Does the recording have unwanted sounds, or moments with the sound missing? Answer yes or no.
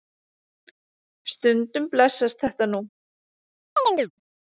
yes